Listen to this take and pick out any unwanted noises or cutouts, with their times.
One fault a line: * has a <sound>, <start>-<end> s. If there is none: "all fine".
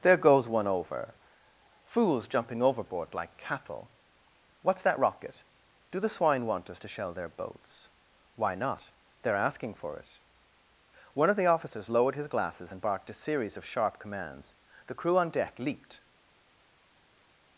all fine